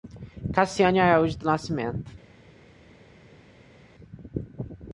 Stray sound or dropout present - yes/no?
no